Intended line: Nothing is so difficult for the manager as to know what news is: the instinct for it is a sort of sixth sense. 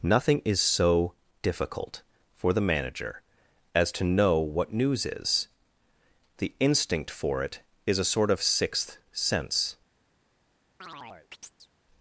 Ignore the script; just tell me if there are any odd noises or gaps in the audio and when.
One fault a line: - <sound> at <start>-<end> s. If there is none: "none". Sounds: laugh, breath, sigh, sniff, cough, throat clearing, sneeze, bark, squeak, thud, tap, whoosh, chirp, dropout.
- chirp at 10.8-11.7 s